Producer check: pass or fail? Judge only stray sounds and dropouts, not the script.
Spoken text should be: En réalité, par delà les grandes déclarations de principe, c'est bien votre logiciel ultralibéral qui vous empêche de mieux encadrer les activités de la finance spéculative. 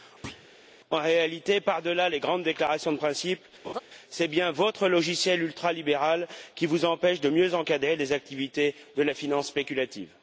fail